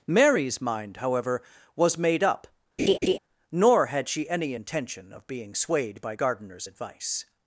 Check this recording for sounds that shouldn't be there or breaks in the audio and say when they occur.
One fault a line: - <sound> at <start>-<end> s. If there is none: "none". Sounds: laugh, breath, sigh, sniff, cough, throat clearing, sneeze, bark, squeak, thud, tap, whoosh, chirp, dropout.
- laugh at 2.8-3.2 s